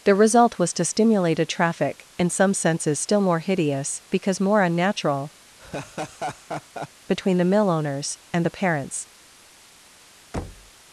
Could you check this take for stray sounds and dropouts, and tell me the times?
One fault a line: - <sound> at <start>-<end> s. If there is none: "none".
- laugh at 5.6-6.9 s
- thud at 10.3-10.7 s